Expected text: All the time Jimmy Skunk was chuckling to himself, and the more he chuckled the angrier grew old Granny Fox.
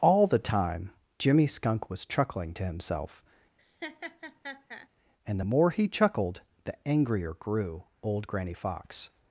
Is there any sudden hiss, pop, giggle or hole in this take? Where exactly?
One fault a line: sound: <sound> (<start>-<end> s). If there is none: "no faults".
sound: laugh (3.6-4.9 s)